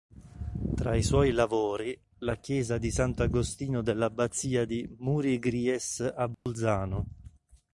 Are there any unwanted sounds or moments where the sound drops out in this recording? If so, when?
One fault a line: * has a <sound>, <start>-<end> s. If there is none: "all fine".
* has a dropout, 6.3-6.5 s